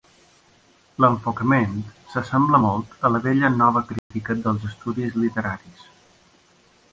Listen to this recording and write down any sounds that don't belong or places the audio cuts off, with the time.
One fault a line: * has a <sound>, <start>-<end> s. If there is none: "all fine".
* has a dropout, 4.0-4.1 s